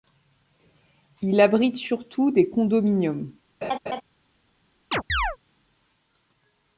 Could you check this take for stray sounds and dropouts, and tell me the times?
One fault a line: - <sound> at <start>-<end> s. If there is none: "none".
- laugh at 3.6-4.0 s
- chirp at 4.9-5.4 s